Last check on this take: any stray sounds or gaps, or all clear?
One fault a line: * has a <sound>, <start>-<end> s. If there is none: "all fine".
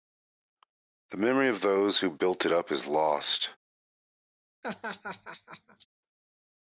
* has a laugh, 4.6-5.9 s